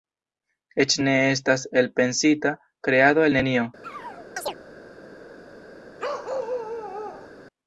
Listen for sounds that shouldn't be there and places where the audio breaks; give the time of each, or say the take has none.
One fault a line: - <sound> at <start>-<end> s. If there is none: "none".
- chirp at 3.8-4.6 s
- bark at 6.0-7.3 s